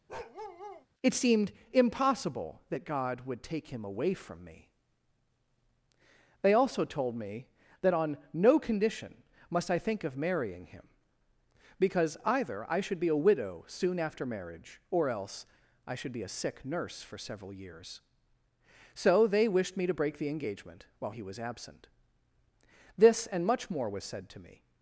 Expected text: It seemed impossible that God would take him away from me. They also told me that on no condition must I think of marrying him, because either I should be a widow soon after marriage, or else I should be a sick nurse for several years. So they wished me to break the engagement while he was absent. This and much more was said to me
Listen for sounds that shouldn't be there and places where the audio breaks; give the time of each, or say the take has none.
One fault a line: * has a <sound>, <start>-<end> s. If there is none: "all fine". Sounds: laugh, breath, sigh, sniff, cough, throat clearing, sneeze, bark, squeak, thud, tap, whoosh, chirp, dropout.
* has a bark, 0.1-0.9 s